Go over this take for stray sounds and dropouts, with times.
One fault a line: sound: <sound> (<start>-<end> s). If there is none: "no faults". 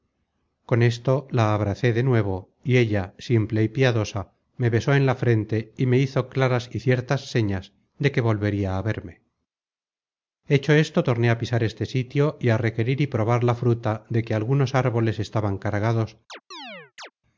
sound: chirp (16.3-17.1 s)